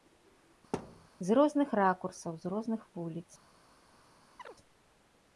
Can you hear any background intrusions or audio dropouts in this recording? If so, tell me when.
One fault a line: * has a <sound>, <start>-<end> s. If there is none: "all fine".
* has a thud, 0.7-1.1 s
* has a chirp, 4.4-4.6 s